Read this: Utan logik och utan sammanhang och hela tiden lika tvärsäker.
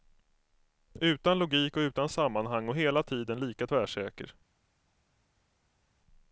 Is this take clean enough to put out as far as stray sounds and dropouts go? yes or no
yes